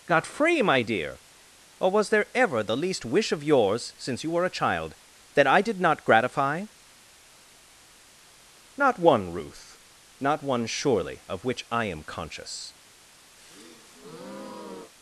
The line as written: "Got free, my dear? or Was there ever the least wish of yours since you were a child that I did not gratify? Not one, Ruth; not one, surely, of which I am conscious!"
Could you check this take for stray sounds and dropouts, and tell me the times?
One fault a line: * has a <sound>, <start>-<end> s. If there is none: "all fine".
* has a breath, 13.4-14.9 s